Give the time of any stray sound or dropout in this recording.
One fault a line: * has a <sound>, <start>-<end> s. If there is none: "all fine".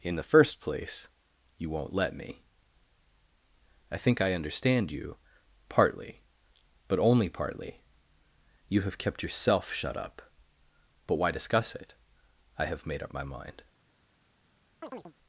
* has a chirp, 14.8-15.1 s